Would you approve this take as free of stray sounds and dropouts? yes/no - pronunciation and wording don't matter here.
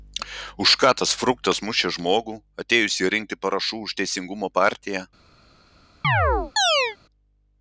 no